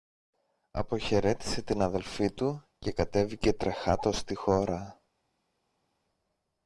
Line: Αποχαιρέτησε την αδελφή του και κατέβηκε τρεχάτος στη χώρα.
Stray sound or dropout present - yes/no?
no